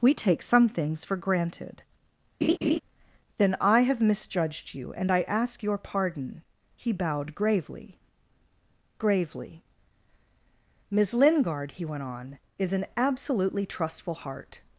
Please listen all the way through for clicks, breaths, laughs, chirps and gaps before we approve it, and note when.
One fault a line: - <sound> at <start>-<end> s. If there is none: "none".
- laugh at 2.4-2.8 s